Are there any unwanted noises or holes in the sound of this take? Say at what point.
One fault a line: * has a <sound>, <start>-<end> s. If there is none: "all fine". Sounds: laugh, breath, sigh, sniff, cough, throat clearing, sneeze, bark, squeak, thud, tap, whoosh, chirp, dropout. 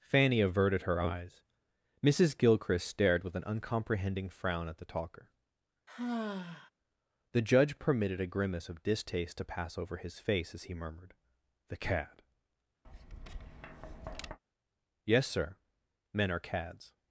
* has a sigh, 5.9-6.7 s
* has a tap, 12.8-14.4 s